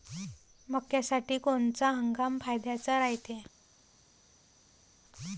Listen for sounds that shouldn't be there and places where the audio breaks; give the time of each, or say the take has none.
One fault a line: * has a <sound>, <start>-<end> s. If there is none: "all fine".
all fine